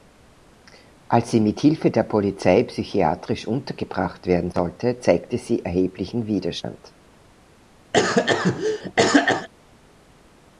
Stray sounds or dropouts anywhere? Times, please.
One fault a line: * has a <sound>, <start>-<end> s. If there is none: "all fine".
* has a cough, 7.9-9.5 s